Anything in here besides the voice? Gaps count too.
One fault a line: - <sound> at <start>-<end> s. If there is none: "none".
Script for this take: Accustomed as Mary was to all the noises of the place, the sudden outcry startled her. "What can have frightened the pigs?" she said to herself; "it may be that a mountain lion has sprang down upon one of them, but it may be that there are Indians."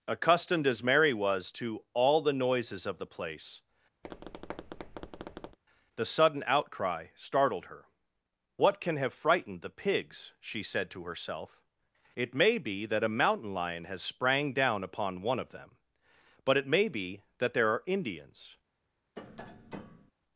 - tap at 4.0-5.6 s
- tap at 19.2-20.1 s